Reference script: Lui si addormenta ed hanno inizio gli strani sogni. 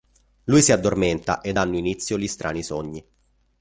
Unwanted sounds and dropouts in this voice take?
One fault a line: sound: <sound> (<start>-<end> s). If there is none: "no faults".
no faults